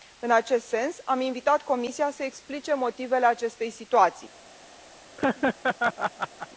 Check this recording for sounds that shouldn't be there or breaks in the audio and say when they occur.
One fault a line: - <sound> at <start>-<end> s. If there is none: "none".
- laugh at 5.2-6.5 s